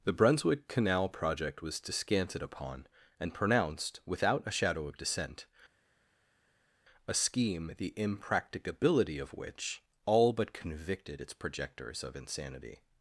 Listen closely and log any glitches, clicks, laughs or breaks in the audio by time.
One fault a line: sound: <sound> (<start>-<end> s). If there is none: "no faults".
no faults